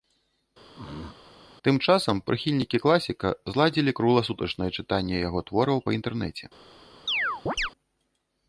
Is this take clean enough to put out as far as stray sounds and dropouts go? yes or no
no